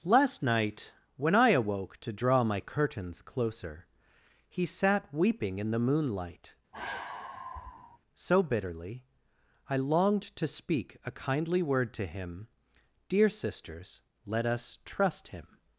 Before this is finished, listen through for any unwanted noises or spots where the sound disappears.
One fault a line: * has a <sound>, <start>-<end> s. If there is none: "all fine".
* has a sigh, 6.7-8.0 s